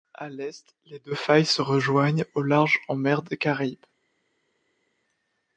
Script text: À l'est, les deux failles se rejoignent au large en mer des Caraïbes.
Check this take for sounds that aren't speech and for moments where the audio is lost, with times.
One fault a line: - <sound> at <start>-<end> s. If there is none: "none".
none